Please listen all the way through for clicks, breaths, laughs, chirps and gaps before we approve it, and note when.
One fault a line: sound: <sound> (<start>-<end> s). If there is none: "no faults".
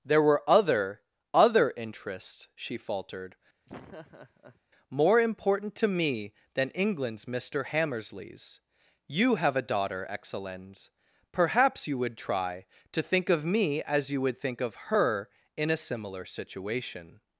sound: laugh (3.7-4.6 s)